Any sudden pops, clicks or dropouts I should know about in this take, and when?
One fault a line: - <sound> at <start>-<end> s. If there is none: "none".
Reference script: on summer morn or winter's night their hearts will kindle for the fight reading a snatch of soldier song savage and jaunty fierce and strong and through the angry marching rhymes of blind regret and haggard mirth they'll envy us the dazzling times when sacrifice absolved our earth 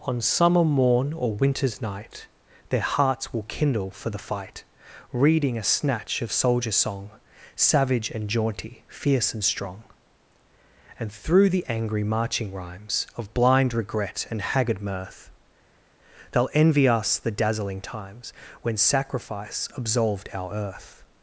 none